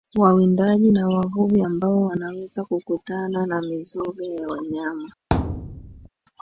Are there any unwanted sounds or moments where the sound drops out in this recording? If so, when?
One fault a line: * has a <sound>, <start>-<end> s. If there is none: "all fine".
* has a thud, 5.3-6.1 s